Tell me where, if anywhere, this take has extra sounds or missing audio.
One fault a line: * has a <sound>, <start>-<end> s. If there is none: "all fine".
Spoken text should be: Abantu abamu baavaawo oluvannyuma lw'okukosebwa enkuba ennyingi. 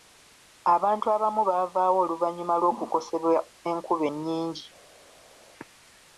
all fine